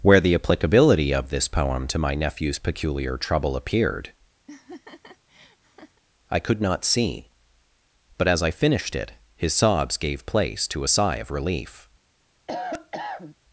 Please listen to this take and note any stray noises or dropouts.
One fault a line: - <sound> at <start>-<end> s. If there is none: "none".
- laugh at 4.5-6.0 s
- cough at 12.5-13.3 s